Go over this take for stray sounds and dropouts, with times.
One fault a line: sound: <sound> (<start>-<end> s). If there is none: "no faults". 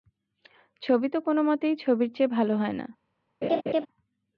sound: laugh (3.4-3.9 s)